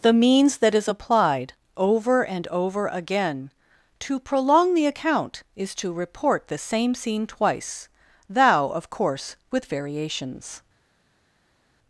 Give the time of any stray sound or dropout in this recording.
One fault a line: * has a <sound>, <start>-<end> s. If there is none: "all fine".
all fine